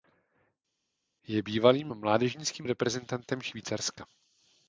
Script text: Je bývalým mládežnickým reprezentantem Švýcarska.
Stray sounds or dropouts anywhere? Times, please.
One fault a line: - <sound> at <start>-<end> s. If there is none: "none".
none